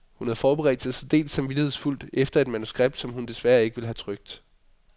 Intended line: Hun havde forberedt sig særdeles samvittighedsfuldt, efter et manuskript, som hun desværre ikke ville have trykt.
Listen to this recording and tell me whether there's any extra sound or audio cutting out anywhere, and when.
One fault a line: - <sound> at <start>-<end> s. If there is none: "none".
none